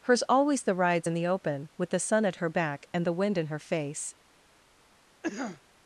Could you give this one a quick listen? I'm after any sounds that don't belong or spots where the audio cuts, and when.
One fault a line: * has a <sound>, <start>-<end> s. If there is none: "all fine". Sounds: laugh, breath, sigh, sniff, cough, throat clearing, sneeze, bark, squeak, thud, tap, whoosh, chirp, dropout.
* has a cough, 5.2-5.6 s